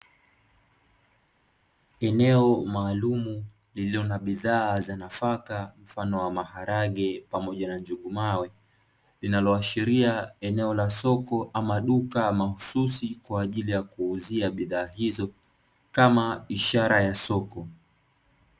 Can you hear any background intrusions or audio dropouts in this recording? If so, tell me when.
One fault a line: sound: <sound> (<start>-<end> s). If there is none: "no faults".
no faults